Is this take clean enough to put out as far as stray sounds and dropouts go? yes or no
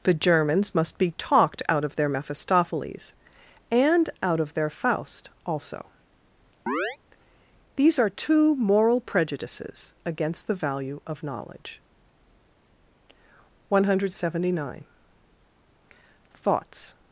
no